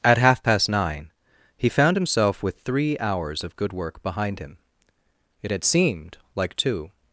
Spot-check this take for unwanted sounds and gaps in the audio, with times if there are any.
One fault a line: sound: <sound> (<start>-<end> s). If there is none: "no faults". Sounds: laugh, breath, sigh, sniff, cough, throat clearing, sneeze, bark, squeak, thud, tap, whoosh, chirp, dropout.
no faults